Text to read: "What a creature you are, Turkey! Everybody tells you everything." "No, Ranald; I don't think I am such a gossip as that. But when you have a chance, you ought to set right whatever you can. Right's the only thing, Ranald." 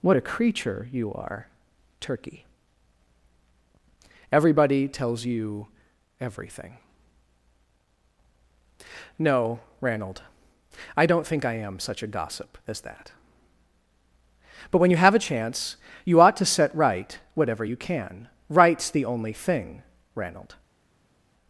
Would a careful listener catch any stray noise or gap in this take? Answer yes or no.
no